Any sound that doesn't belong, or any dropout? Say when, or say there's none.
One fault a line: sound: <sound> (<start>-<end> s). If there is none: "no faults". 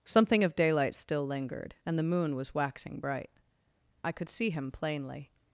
no faults